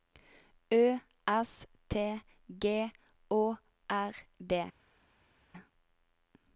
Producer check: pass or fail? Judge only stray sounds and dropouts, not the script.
pass